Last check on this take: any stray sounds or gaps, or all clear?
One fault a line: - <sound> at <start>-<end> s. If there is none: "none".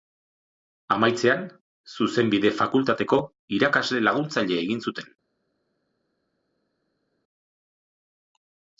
none